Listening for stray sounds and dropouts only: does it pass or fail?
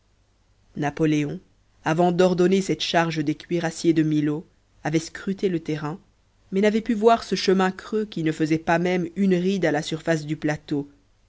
pass